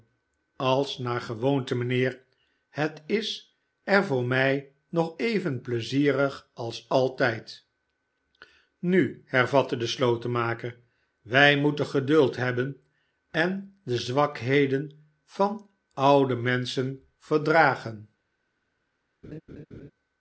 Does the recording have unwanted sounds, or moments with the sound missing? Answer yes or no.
yes